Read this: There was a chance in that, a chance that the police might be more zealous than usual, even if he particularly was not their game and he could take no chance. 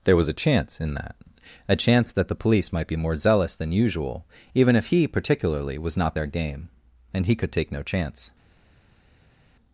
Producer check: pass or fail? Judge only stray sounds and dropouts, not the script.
pass